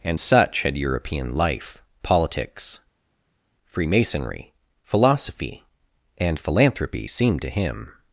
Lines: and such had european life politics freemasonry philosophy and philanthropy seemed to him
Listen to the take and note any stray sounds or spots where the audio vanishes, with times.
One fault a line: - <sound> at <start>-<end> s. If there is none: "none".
none